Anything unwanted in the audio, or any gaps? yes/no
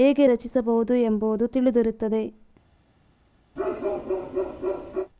yes